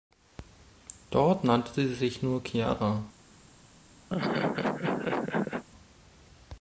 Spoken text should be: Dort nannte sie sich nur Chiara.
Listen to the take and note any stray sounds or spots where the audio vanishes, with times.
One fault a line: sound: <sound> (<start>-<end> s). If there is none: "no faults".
sound: laugh (4.1-5.6 s)